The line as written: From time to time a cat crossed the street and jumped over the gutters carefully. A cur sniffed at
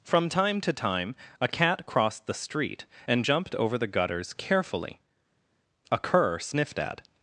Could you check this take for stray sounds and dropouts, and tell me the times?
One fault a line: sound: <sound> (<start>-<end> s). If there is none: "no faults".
no faults